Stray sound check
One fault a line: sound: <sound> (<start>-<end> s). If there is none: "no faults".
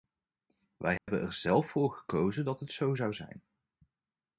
sound: dropout (1.0-1.1 s)